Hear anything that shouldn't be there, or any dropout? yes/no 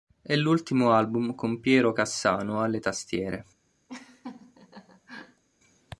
yes